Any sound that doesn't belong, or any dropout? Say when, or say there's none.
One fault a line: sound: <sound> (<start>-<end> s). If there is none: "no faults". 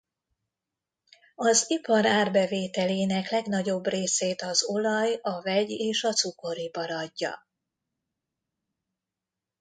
no faults